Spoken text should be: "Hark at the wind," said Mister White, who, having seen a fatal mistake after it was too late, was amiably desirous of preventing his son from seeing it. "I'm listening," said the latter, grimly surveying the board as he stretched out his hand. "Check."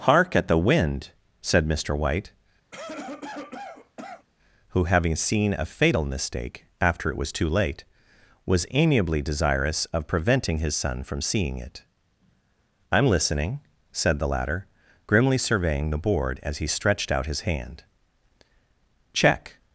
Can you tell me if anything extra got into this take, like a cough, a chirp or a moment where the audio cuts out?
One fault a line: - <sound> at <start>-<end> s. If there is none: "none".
- cough at 2.7-4.3 s